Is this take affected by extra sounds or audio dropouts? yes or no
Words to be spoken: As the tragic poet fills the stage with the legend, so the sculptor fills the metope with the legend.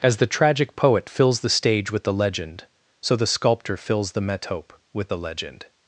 no